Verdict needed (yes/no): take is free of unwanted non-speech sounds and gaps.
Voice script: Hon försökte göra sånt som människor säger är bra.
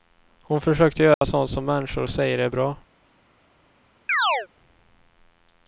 no